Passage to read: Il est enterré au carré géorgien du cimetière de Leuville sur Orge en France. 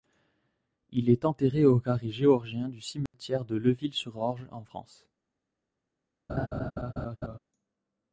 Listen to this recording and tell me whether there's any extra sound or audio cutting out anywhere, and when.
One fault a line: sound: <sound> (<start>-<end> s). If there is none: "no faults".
sound: dropout (3.1-3.1 s)
sound: laugh (6.3-7.4 s)